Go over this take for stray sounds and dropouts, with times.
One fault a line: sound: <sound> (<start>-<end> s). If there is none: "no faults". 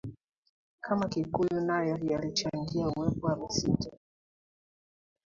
no faults